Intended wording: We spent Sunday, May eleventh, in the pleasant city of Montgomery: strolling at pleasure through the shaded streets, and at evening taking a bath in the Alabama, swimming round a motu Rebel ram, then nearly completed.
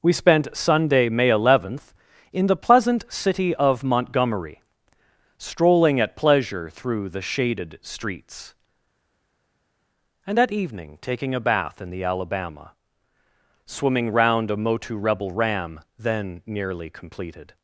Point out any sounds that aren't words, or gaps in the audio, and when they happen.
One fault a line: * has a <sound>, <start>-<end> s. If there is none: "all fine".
all fine